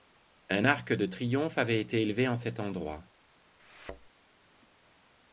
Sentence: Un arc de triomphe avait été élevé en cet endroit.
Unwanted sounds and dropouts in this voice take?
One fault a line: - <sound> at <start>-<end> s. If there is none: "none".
- thud at 3.6-4.1 s